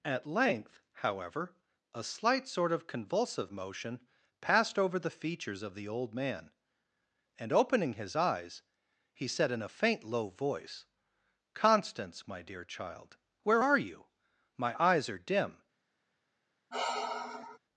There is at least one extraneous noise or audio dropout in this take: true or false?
true